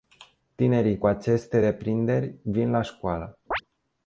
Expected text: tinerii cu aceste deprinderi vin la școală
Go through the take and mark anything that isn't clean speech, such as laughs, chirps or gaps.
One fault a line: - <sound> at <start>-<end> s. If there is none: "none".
- chirp at 3.5-3.6 s